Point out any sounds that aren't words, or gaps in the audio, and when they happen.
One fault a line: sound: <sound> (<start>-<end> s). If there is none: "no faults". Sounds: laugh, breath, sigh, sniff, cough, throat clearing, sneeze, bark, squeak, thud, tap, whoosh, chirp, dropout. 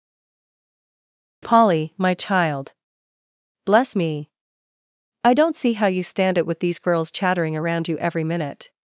no faults